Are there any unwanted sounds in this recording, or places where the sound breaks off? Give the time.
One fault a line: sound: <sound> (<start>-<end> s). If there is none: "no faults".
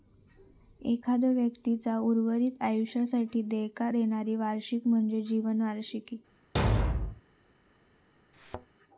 sound: thud (6.6-7.2 s)
sound: thud (8.3-8.7 s)